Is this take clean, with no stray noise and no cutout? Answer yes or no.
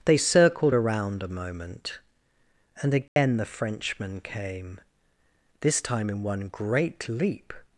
no